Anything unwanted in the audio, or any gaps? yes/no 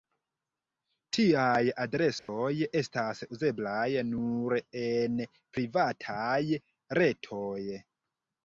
yes